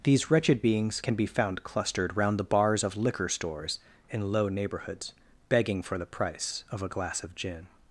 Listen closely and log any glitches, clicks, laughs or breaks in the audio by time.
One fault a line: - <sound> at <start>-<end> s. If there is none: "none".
none